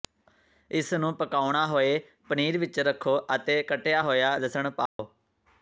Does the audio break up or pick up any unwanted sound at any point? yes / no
yes